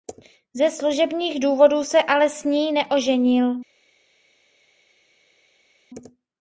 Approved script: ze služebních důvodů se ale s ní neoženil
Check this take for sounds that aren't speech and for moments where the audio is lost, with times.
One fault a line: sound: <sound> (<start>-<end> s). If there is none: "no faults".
no faults